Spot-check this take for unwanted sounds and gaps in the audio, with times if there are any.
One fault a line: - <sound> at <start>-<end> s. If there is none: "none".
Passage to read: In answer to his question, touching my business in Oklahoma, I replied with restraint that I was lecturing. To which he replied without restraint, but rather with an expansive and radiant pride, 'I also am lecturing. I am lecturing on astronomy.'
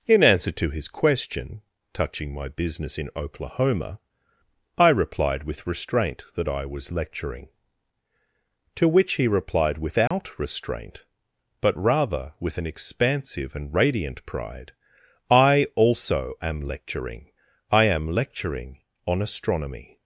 - dropout at 10.1-10.1 s